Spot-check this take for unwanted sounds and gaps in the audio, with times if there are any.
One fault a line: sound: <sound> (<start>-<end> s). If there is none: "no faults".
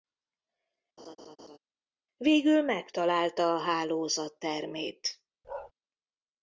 sound: laugh (1.0-1.6 s)
sound: bark (5.4-5.7 s)